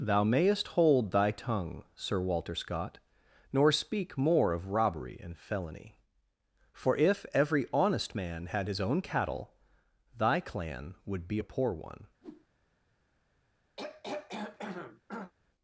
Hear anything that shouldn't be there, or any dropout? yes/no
yes